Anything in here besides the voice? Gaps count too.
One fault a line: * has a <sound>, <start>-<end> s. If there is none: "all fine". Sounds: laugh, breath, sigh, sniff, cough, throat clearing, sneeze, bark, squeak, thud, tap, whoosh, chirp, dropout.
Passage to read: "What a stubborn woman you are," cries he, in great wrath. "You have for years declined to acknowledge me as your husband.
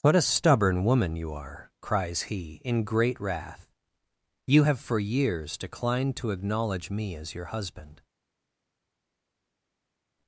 all fine